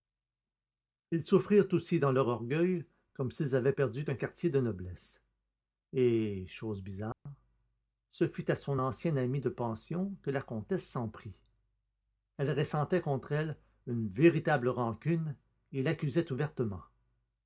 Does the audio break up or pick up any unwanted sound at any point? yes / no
yes